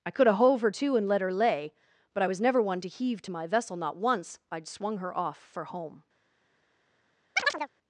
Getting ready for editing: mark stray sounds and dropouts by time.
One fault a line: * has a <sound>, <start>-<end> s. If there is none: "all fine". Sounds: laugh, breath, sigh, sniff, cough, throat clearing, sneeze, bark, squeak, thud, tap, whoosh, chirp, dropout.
* has a chirp, 7.4-7.7 s